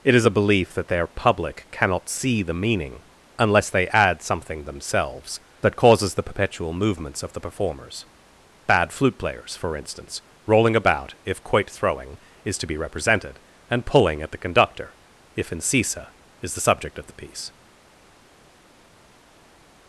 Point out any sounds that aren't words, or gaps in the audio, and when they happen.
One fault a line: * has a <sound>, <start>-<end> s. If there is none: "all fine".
all fine